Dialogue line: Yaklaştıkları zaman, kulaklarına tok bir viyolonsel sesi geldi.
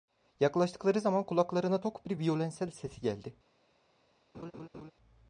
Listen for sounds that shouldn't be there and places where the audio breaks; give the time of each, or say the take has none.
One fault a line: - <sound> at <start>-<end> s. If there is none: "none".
- laugh at 4.3-4.9 s